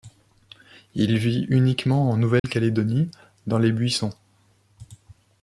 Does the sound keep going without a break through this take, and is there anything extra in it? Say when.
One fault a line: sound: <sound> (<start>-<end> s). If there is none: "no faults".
sound: dropout (2.4-2.4 s)